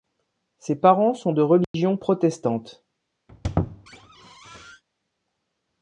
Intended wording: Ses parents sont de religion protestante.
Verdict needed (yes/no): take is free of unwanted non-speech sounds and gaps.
no